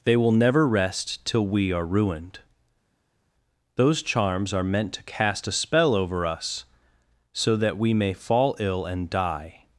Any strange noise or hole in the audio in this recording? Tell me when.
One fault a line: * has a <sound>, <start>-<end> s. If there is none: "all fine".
all fine